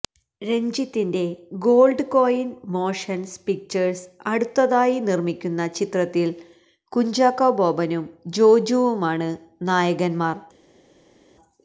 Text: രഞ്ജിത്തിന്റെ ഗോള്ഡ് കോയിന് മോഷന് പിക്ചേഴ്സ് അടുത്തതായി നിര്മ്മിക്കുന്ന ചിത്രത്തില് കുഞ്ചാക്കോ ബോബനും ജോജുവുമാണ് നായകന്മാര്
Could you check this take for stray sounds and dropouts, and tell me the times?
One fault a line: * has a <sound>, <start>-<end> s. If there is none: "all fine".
all fine